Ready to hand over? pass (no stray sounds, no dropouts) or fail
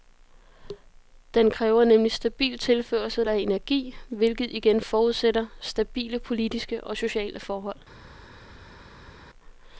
pass